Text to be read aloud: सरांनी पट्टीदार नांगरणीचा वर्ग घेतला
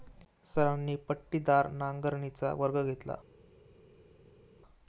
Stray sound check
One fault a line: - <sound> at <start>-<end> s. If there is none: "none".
none